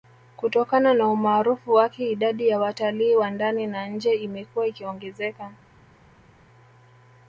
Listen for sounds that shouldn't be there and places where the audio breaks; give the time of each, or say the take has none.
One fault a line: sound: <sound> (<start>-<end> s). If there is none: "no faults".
no faults